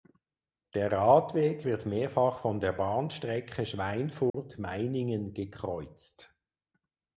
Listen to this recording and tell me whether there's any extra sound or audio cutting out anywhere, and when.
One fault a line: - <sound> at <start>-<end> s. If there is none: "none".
- dropout at 4.3-4.3 s